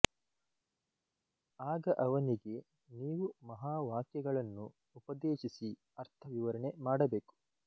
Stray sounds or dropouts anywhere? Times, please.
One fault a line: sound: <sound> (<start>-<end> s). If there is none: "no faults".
no faults